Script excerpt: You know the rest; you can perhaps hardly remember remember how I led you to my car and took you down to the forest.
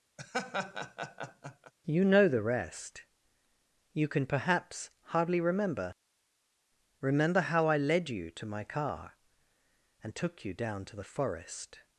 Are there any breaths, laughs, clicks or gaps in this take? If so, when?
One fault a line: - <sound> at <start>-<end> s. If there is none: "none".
- laugh at 0.2-1.7 s